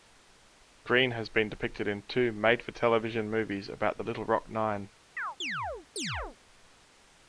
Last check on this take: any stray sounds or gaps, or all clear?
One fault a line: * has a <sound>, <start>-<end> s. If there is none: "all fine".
* has a chirp, 5.2-6.4 s